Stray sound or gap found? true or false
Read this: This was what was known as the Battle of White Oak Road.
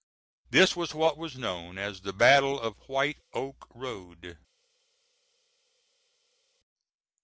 false